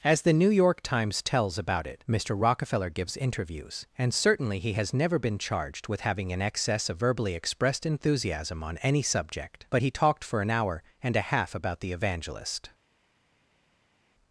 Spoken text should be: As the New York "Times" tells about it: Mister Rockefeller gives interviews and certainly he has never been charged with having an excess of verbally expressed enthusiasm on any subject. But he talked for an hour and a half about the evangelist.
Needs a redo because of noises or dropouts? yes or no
no